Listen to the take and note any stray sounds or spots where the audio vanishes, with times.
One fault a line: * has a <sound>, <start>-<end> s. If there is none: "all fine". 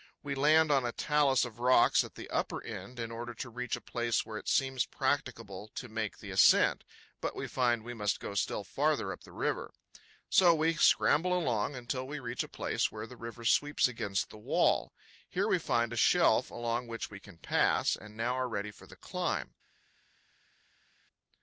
all fine